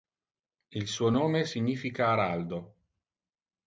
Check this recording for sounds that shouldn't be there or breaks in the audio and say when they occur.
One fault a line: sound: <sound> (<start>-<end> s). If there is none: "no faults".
no faults